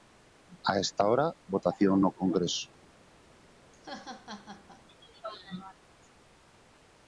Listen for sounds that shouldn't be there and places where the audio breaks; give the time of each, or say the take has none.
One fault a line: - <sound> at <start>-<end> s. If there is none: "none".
- laugh at 3.7-4.8 s